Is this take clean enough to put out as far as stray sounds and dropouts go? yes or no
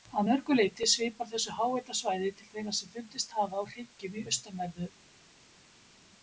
yes